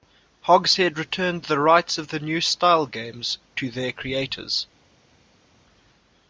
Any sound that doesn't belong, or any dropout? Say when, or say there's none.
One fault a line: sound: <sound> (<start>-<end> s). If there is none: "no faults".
no faults